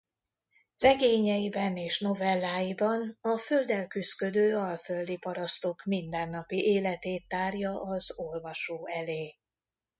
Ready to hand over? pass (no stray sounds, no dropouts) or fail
pass